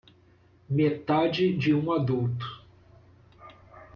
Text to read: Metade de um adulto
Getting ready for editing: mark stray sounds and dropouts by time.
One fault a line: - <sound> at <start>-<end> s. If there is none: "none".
none